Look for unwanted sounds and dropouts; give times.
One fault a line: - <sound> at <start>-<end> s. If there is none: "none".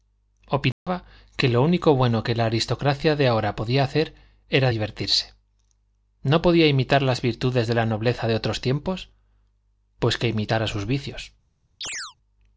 - dropout at 0.7-0.9 s
- chirp at 11.8-12.2 s